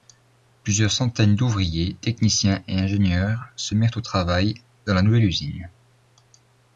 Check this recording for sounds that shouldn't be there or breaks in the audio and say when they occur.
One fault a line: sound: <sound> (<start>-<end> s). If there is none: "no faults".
no faults